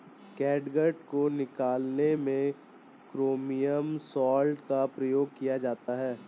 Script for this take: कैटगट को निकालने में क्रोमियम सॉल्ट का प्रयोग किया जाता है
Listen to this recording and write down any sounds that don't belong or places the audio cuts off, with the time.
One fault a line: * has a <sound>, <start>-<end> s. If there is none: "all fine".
* has a dropout, 5.8-5.9 s